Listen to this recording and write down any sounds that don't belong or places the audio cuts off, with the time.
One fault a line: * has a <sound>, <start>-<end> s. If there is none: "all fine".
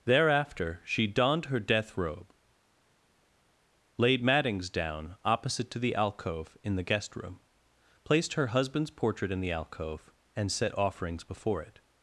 all fine